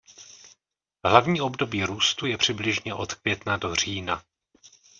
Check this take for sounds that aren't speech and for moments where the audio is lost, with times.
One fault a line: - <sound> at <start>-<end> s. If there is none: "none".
none